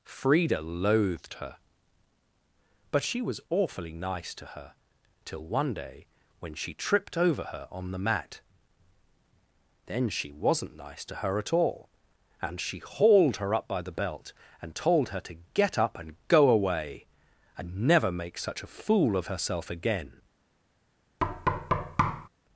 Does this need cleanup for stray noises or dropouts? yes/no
yes